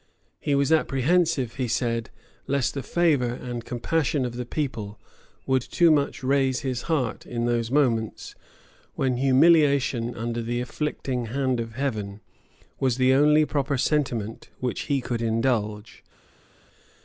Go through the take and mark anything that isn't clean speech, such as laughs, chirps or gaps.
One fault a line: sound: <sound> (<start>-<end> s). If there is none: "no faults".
no faults